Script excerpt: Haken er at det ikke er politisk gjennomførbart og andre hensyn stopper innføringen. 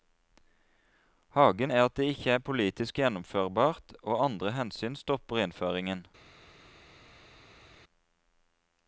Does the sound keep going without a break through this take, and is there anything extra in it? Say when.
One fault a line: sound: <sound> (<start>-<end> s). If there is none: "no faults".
no faults